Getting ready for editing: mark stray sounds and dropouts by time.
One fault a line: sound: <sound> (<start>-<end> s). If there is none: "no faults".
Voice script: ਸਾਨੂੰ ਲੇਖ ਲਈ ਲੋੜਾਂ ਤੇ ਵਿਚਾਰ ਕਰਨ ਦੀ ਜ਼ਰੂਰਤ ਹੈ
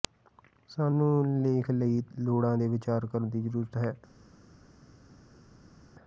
no faults